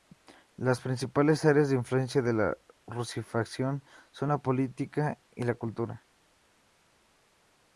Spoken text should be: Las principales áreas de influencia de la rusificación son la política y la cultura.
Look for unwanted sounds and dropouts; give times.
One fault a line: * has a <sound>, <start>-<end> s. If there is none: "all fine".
all fine